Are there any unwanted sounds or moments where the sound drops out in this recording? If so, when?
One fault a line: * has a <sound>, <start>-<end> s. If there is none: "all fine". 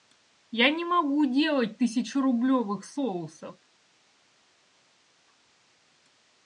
all fine